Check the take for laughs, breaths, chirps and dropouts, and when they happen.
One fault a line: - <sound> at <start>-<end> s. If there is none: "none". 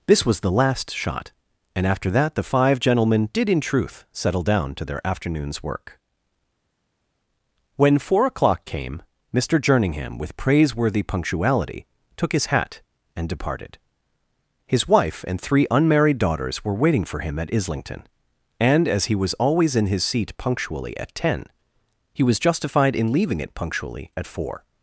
none